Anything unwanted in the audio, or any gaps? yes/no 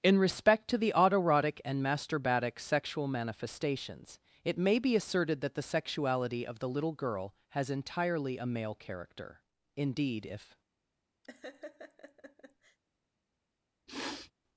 yes